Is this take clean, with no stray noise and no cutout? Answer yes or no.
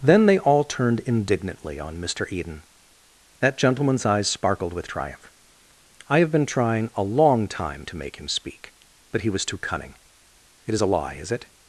yes